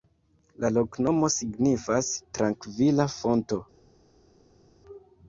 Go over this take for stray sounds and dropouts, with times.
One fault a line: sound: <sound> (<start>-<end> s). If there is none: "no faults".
no faults